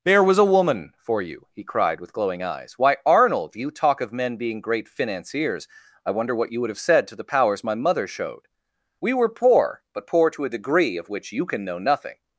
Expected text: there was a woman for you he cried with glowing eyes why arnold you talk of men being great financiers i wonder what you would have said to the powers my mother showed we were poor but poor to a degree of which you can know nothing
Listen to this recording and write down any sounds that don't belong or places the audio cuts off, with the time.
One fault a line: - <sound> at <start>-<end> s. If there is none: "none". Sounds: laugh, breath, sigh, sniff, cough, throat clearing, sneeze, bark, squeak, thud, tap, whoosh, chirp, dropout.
none